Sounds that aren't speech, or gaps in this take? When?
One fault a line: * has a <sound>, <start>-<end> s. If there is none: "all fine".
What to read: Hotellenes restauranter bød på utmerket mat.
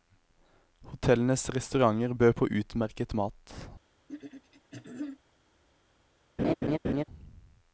* has a throat clearing, 4.1-5.2 s
* has a laugh, 6.4-7.0 s